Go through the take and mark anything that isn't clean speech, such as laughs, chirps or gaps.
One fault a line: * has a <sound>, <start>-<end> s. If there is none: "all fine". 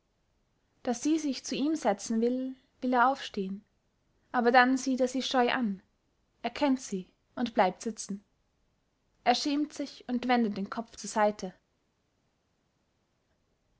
all fine